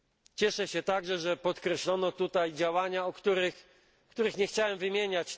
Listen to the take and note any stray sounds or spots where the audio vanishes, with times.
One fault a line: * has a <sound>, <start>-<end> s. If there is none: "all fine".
all fine